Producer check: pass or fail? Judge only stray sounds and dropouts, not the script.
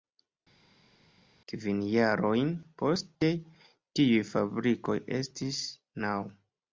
pass